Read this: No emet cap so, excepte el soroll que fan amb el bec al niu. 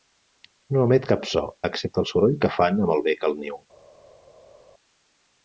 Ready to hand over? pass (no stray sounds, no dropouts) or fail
pass